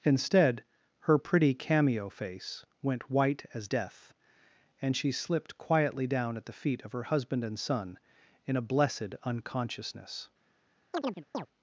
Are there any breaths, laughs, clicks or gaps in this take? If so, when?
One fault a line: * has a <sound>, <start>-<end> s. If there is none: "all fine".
* has a chirp, 10.9-11.5 s